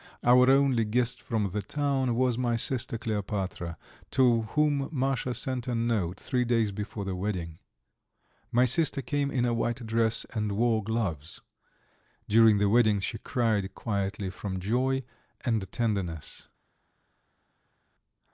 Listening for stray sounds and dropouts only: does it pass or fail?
pass